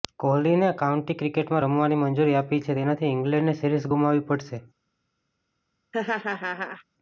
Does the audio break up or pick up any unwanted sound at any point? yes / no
yes